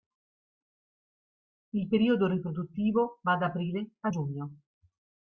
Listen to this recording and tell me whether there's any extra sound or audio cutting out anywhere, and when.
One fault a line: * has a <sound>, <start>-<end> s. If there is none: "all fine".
all fine